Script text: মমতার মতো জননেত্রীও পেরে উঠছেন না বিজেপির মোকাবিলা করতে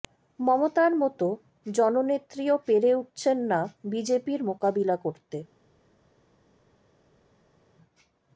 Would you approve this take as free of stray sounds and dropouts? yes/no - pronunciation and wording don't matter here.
yes